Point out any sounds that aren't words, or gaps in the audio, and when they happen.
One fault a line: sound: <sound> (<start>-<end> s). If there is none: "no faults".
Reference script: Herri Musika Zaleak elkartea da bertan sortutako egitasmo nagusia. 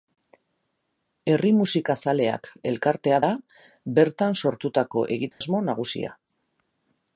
sound: dropout (5.3-5.4 s)